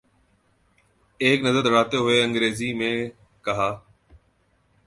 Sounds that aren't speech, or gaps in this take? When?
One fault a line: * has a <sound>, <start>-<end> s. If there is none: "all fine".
all fine